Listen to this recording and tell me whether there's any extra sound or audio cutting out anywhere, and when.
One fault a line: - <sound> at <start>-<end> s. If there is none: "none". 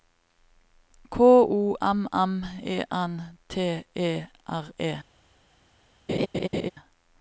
- laugh at 6.1-6.7 s